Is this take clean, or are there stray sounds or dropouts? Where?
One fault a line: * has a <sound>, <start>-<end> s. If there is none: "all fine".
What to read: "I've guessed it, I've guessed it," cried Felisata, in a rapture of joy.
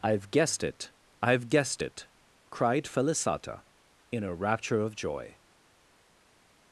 all fine